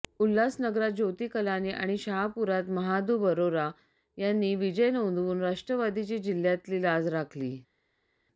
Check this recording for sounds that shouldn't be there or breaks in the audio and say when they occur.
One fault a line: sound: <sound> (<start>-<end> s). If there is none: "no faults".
no faults